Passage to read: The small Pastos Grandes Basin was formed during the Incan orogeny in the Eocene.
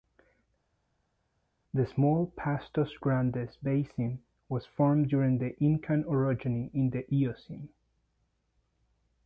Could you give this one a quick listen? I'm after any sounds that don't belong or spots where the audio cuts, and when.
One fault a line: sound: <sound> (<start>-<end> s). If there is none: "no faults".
no faults